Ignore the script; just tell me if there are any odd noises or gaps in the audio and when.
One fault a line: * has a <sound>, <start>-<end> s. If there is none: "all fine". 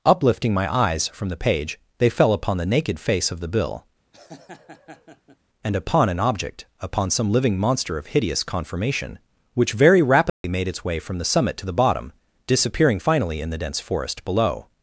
* has a laugh, 4.1-5.4 s
* has a dropout, 10.3-10.4 s